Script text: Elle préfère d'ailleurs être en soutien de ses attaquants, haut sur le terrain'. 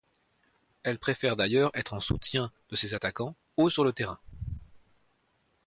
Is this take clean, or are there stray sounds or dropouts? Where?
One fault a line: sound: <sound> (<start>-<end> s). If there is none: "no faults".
no faults